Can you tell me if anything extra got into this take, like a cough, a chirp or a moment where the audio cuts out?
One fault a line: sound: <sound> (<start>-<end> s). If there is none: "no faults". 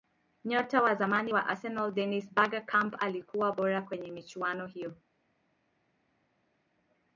no faults